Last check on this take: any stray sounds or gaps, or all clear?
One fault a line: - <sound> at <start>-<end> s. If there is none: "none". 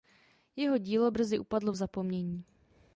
none